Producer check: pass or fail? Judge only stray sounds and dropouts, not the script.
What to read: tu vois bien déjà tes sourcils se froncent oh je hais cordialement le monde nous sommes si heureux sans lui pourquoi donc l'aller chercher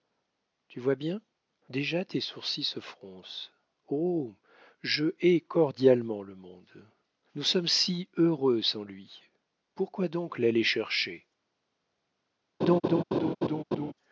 fail